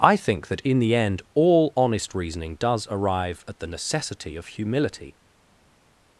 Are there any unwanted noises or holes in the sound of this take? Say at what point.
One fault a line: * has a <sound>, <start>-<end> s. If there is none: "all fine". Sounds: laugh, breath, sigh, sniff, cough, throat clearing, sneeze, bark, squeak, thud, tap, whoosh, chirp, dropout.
all fine